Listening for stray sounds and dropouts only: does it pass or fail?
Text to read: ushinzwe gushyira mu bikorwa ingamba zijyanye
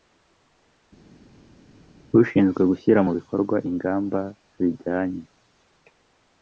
pass